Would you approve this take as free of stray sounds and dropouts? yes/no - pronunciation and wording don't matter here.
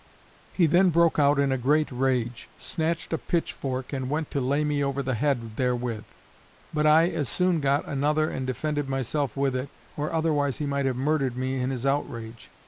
yes